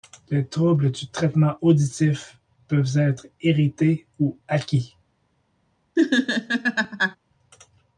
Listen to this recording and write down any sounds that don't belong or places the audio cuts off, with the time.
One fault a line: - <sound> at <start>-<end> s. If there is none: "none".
- laugh at 6.0-7.2 s